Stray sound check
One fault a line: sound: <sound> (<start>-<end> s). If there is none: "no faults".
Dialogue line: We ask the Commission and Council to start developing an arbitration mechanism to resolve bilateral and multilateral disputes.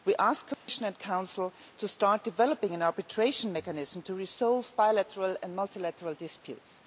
sound: dropout (0.5-0.7 s)